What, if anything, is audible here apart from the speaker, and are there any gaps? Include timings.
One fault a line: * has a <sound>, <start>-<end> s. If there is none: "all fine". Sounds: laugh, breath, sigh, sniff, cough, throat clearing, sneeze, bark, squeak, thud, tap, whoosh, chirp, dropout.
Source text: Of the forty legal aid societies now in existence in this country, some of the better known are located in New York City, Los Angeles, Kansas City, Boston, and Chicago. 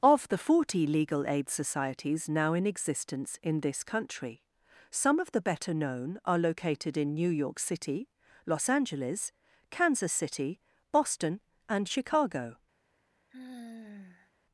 * has a sigh, 13.3-14.3 s